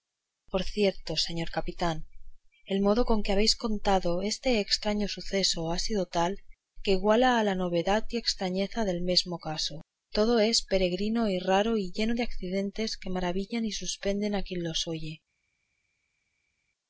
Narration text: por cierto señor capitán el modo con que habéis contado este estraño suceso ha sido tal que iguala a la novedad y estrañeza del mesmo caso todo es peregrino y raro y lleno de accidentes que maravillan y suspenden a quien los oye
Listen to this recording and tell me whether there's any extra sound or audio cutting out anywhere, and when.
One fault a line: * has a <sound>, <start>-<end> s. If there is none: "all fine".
all fine